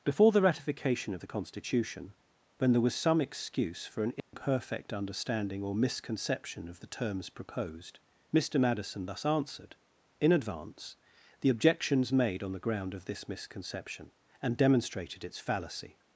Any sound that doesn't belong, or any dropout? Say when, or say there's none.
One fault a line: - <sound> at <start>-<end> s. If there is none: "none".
- dropout at 4.2-4.3 s